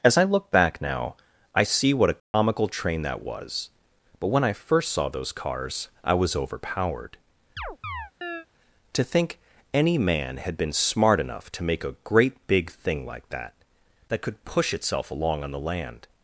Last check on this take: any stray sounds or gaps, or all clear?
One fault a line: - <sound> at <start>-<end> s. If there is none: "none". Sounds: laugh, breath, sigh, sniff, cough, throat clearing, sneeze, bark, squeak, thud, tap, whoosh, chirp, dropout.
- dropout at 2.2-2.3 s
- chirp at 7.6-8.5 s